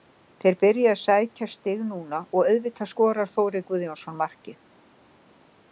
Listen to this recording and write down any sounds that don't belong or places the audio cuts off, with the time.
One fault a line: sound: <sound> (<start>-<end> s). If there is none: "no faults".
no faults